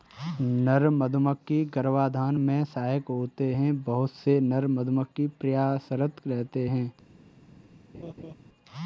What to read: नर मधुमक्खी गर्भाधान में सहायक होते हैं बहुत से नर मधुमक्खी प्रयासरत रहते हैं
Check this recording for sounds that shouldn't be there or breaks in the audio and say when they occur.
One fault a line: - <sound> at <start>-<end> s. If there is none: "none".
- laugh at 7.9-8.3 s